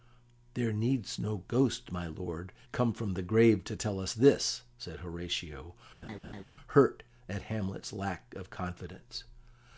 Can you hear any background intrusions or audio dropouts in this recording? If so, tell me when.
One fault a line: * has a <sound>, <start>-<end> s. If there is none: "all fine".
* has a laugh, 6.0-6.4 s